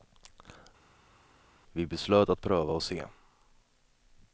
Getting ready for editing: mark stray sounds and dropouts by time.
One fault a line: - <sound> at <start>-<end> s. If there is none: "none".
none